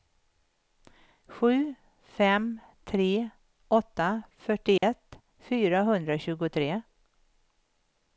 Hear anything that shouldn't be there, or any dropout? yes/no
yes